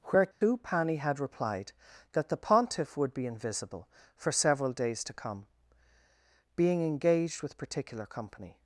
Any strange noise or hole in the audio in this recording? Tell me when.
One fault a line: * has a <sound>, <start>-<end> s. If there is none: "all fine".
* has a dropout, 0.3-0.4 s